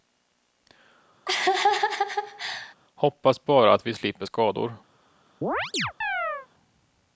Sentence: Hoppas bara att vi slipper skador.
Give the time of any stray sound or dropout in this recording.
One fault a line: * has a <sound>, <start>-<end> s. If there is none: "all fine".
* has a laugh, 1.3-2.7 s
* has a chirp, 5.4-6.5 s